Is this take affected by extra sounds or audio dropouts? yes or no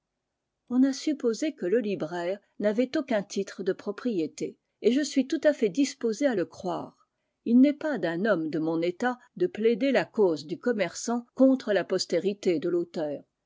no